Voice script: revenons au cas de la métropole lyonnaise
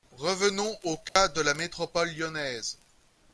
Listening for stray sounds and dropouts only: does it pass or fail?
fail